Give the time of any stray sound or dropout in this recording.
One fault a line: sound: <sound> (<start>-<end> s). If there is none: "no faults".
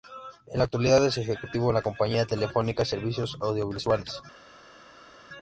no faults